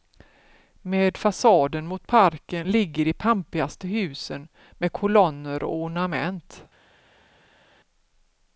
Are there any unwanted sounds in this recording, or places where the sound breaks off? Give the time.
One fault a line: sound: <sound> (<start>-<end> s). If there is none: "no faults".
no faults